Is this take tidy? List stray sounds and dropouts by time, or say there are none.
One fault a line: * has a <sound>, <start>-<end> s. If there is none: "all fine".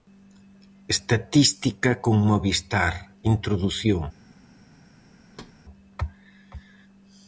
* has a thud, 5.3-5.6 s